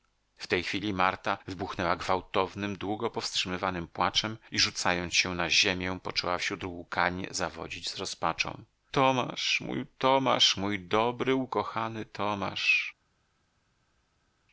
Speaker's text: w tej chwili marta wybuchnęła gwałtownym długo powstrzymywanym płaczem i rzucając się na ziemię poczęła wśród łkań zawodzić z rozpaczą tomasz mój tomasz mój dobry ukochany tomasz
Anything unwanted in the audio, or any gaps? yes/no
no